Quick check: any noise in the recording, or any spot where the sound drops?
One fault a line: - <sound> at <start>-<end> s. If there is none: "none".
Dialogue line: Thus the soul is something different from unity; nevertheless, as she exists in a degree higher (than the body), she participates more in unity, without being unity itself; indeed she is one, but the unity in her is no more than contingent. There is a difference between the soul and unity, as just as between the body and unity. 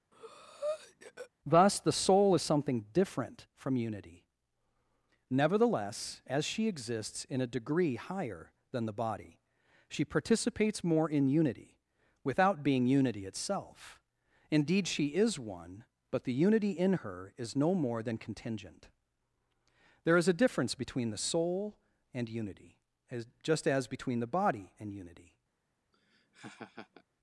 - breath at 0.1-1.3 s
- laugh at 25.9-27.0 s